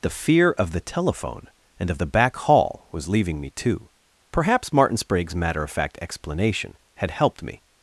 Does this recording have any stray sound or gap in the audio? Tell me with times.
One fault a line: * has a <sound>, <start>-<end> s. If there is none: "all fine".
all fine